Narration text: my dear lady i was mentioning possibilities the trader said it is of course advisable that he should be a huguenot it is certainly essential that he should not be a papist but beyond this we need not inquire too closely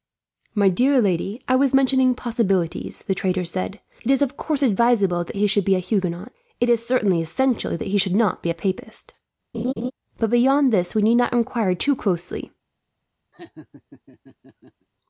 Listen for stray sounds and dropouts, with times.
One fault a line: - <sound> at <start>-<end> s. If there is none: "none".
- laugh at 9.5-9.9 s
- laugh at 13.3-14.9 s